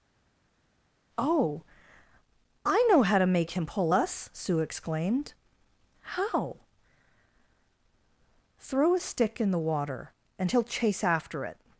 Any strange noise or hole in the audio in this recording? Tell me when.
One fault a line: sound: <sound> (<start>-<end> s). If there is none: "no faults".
no faults